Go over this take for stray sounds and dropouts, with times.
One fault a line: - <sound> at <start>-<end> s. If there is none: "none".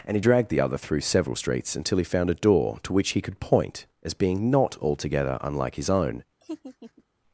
- laugh at 6.4-7.0 s